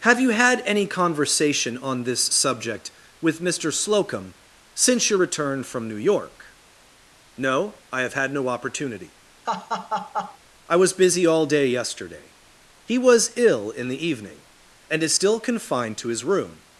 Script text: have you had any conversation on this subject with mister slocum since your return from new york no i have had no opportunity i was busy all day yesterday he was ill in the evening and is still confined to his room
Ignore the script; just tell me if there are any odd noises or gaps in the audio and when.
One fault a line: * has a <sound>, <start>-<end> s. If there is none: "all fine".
* has a laugh, 9.5-10.4 s